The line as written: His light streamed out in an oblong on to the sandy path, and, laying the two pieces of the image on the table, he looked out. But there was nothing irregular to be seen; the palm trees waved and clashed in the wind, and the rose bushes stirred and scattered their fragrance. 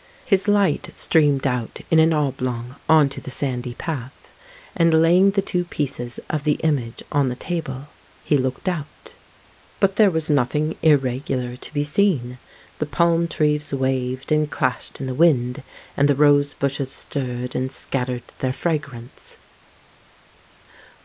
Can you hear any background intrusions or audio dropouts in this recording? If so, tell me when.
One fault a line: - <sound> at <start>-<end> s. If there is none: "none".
none